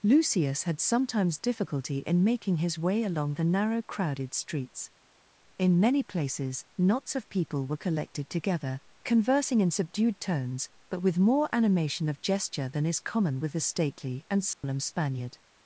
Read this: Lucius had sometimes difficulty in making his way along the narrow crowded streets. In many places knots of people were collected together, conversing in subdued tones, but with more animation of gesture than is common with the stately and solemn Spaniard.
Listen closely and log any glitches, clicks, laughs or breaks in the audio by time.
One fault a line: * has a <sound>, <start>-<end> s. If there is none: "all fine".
* has a dropout, 14.5-14.6 s